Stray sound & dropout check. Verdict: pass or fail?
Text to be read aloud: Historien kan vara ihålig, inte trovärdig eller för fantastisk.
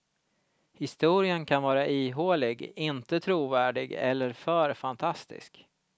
pass